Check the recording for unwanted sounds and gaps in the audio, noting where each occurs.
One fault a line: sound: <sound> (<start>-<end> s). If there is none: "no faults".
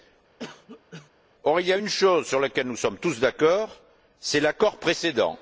sound: cough (0.4-1.1 s)